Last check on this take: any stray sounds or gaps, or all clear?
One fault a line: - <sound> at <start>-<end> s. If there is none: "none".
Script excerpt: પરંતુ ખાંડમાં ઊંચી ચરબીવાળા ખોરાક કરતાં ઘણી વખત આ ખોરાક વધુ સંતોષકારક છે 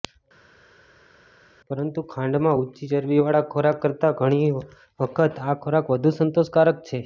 none